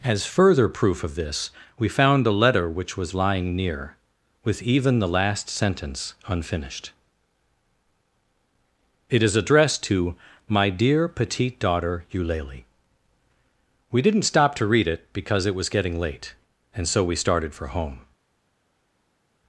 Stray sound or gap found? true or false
false